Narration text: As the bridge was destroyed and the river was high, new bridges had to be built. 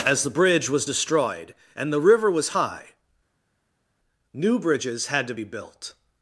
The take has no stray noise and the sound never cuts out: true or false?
true